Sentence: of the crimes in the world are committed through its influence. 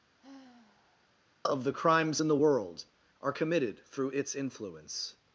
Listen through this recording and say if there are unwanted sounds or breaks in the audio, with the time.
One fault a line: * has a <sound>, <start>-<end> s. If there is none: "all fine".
* has a sigh, 0.2-1.1 s